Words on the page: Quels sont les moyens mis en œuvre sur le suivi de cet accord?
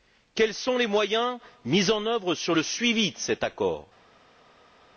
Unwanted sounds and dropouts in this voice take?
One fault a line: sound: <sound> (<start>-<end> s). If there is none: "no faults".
no faults